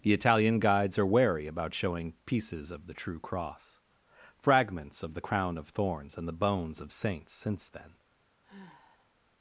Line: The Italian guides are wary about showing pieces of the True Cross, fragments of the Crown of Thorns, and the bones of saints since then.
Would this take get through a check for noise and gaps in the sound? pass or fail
fail